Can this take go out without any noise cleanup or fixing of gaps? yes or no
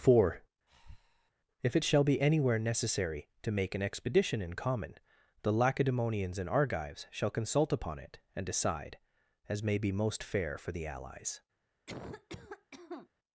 no